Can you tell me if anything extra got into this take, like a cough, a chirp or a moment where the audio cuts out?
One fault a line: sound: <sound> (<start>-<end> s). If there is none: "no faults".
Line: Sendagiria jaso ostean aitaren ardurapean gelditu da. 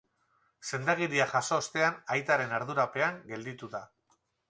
no faults